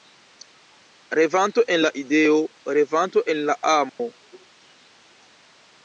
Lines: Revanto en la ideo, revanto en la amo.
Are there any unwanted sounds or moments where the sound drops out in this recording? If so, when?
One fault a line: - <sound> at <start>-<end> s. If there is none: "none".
- dropout at 3.9-4.0 s